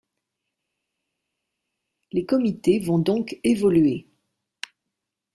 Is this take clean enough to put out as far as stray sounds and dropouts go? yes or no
yes